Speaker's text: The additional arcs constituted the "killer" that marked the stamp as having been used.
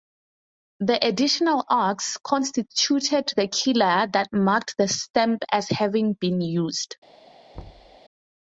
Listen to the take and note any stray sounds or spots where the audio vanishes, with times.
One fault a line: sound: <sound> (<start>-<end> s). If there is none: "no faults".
sound: thud (7.5-8.0 s)